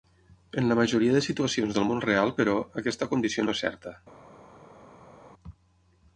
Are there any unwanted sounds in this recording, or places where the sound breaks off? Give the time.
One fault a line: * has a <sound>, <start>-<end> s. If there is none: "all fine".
all fine